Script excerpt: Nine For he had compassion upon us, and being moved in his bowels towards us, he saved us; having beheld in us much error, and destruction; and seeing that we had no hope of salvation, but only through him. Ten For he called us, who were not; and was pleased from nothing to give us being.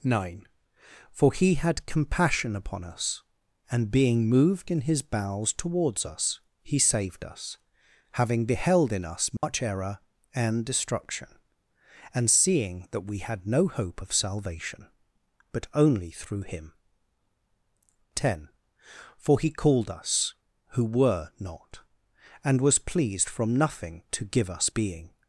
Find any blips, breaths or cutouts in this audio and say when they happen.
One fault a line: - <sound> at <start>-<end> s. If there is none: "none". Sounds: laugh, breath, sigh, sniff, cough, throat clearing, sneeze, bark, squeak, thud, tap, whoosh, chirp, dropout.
- dropout at 9.4-9.4 s